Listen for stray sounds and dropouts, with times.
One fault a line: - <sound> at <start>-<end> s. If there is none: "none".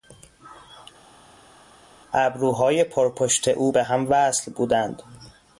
none